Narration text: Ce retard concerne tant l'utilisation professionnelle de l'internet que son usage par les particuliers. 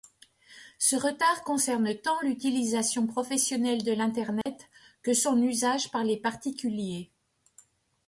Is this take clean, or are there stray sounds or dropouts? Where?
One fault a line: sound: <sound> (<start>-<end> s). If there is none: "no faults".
sound: dropout (4.4-4.5 s)